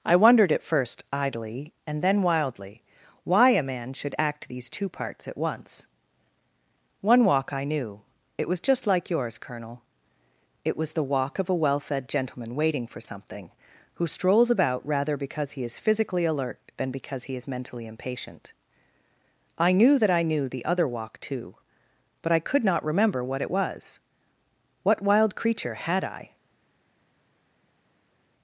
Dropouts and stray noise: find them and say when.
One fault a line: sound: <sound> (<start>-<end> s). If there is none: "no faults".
no faults